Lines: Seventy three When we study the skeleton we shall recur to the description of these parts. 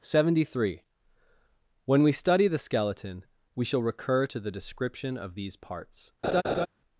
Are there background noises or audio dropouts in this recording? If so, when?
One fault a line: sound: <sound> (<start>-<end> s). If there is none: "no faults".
sound: laugh (6.2-6.7 s)